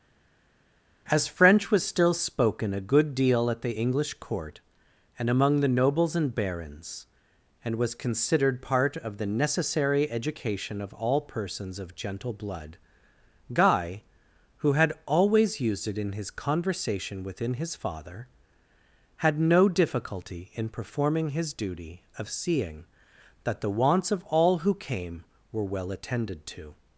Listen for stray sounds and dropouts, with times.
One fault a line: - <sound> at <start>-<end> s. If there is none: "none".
none